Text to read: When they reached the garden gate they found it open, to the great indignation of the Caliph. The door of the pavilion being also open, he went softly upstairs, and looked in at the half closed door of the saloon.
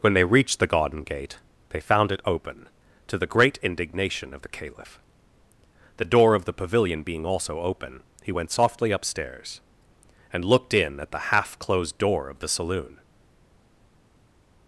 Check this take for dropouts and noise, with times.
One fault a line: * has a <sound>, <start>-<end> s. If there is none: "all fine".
all fine